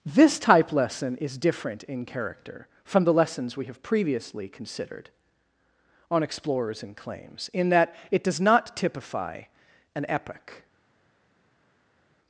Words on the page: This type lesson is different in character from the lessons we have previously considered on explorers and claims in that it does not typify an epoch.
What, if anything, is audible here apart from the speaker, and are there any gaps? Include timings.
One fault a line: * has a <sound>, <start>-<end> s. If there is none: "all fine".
all fine